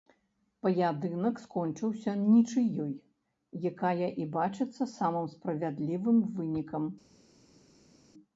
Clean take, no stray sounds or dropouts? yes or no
yes